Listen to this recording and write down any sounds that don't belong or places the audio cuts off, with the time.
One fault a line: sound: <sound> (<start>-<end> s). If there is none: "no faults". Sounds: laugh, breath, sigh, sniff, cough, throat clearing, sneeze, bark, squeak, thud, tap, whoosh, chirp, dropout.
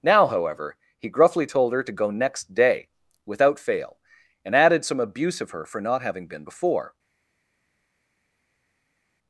no faults